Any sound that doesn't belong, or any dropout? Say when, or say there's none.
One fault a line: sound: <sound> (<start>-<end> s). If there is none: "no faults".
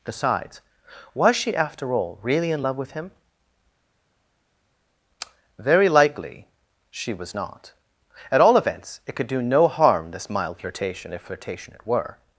no faults